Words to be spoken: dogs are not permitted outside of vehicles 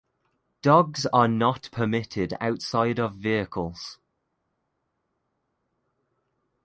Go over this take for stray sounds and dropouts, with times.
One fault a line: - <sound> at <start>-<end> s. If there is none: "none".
none